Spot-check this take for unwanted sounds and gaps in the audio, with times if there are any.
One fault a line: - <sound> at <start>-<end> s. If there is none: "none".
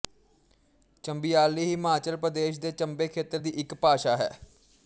none